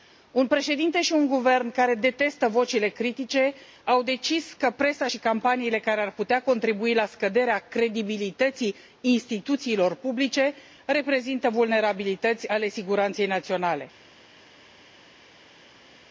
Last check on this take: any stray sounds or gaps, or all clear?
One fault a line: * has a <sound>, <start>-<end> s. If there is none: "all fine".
all fine